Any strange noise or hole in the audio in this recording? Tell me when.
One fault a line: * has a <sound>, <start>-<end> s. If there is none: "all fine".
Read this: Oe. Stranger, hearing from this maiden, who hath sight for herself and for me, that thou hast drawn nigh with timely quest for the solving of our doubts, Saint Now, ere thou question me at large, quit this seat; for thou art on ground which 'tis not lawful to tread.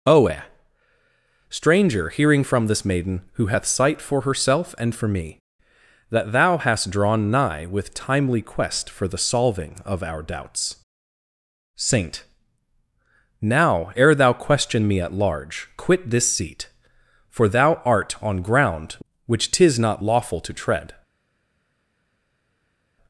all fine